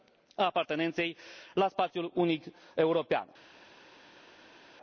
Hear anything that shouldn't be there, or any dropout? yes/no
no